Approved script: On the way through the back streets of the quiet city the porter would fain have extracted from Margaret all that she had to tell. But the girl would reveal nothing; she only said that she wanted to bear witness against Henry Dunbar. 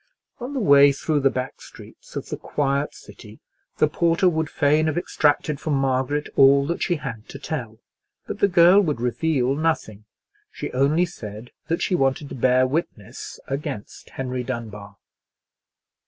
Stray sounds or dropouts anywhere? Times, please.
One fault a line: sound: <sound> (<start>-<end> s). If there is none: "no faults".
no faults